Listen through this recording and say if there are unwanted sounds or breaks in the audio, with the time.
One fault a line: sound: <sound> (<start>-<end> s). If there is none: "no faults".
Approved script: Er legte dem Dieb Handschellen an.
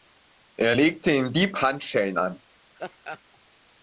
sound: laugh (2.8-3.2 s)